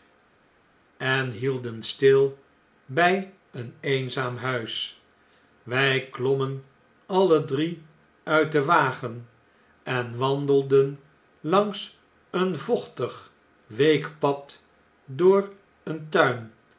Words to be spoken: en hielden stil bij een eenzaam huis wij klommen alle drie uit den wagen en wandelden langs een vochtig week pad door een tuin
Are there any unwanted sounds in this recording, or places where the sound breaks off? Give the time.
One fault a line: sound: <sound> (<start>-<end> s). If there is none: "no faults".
no faults